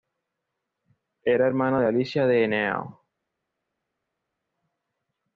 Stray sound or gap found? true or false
false